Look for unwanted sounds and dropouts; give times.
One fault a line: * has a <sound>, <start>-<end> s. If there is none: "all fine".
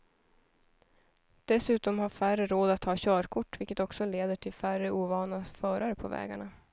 all fine